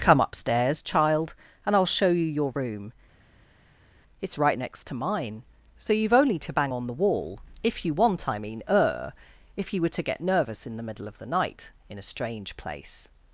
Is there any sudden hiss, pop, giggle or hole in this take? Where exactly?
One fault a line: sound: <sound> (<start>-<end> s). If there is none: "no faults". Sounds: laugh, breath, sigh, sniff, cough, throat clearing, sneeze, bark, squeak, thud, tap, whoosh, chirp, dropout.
no faults